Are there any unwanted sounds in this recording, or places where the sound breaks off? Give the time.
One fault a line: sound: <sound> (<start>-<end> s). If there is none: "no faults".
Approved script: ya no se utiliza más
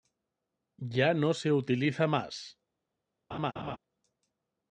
sound: laugh (3.3-3.8 s)